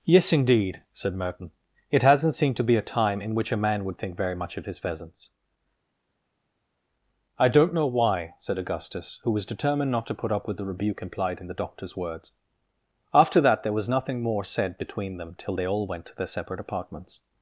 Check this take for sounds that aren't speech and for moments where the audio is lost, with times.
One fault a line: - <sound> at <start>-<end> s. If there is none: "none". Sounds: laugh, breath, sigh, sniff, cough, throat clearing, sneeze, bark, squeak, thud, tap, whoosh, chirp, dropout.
none